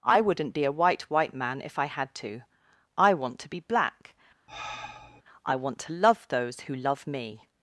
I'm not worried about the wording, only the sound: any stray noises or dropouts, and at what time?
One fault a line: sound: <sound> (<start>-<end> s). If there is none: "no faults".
sound: sigh (4.5-5.2 s)